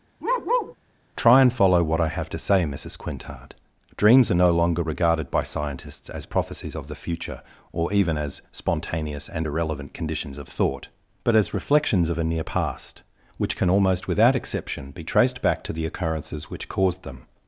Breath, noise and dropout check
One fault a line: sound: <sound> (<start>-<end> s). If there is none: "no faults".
sound: bark (0.2-0.8 s)